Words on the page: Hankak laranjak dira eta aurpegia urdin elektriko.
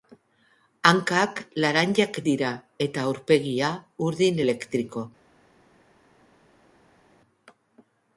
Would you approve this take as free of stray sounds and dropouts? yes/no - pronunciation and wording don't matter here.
yes